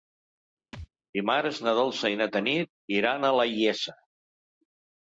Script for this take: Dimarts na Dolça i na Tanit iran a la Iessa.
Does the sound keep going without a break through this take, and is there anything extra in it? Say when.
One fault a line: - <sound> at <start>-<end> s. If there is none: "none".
- thud at 0.7-0.9 s